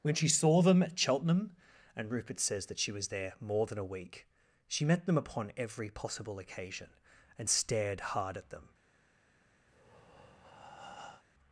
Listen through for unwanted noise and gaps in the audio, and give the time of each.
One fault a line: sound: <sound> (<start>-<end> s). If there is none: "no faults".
sound: breath (9.7-11.2 s)